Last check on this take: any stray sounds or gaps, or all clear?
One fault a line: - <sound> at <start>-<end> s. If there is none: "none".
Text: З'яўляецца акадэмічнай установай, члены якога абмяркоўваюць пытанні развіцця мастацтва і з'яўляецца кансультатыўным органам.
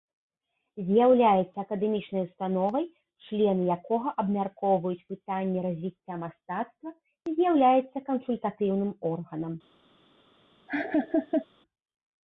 - laugh at 10.7-11.5 s